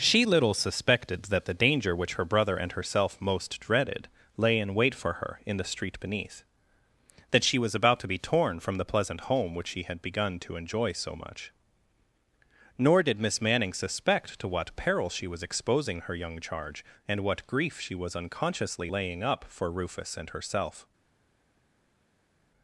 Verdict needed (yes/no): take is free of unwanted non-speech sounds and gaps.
yes